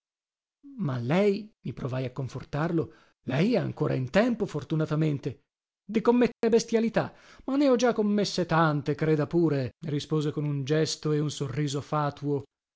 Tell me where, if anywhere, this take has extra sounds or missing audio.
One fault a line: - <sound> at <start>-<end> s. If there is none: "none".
- dropout at 6.3-6.4 s